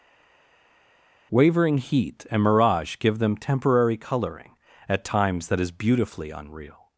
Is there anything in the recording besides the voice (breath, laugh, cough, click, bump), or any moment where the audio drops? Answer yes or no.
no